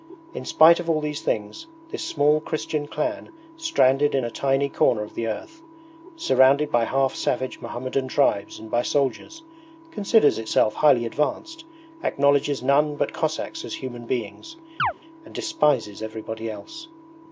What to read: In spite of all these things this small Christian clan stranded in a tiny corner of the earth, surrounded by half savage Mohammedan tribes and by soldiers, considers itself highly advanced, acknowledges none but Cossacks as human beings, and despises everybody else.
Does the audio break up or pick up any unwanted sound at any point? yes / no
yes